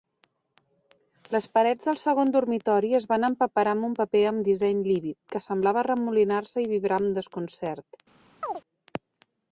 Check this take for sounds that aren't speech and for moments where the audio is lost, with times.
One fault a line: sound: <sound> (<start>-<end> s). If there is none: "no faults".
sound: chirp (8.4-8.6 s)